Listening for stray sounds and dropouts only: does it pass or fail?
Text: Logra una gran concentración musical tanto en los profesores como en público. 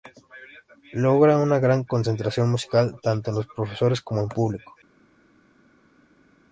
pass